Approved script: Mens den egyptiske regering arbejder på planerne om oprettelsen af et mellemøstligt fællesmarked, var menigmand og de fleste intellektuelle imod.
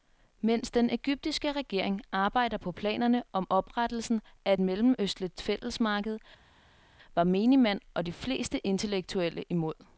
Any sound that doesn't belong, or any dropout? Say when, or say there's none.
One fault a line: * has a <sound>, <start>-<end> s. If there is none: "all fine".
all fine